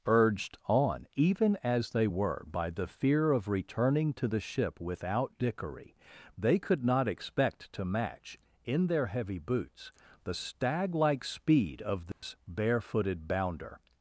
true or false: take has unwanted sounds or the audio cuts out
true